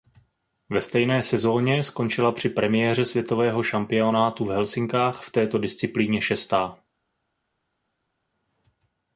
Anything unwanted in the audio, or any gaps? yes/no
no